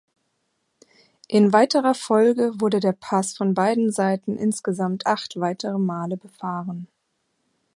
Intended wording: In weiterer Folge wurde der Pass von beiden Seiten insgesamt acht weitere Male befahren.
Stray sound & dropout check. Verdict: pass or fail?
pass